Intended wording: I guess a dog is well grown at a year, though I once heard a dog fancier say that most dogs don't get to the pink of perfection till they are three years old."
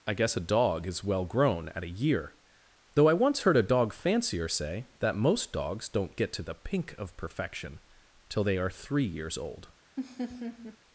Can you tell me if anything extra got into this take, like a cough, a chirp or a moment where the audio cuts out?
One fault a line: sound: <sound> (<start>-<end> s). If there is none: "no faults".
sound: laugh (10.0-10.8 s)